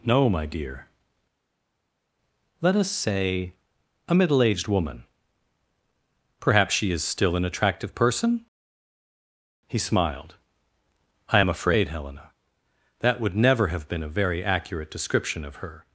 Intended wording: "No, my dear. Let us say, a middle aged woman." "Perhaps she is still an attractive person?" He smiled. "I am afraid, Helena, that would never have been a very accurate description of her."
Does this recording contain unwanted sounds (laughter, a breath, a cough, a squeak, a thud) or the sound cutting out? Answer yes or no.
no